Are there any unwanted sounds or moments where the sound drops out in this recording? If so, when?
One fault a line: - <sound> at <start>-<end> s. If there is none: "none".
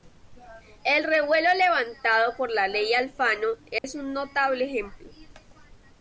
- dropout at 3.8-3.8 s